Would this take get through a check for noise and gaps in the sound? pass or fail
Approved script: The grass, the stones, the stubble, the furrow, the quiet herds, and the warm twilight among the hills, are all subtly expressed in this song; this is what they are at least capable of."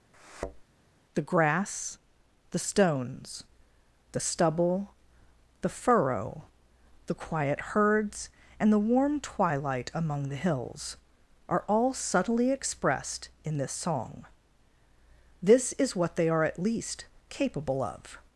fail